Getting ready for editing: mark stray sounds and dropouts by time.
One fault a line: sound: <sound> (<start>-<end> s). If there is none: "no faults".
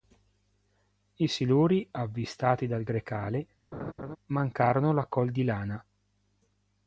sound: laugh (3.7-4.2 s)